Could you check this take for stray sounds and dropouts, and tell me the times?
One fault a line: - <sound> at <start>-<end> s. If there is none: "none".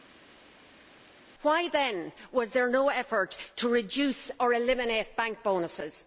none